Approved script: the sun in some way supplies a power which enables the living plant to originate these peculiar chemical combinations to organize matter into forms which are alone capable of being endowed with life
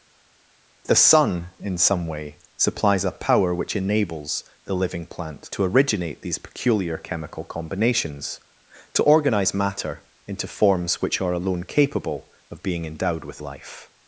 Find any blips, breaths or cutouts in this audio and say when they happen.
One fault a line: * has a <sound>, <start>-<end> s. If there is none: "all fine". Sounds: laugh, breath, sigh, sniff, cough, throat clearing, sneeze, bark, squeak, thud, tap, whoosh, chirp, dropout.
all fine